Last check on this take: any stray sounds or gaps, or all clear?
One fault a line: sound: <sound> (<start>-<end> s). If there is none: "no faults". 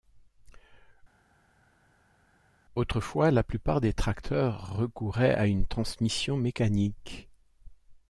no faults